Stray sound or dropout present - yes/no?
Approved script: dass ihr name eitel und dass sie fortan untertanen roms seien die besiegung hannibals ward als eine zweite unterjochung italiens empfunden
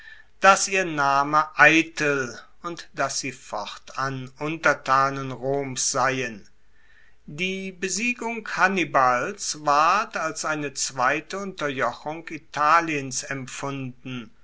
no